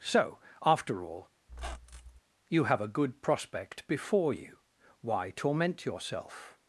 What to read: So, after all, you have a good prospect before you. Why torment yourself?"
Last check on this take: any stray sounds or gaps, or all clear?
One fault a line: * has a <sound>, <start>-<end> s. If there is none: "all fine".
* has a squeak, 1.5-2.2 s